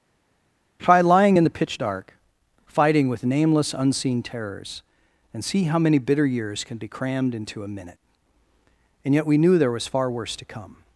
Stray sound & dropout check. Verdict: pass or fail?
pass